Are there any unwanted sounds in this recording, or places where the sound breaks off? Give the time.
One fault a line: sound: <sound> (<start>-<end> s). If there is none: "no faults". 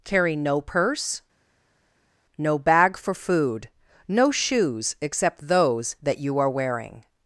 no faults